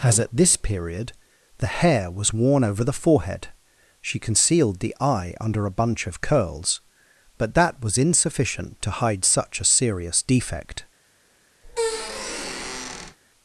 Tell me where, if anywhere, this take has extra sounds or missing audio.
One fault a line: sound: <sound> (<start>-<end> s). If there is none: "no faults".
sound: squeak (11.6-13.2 s)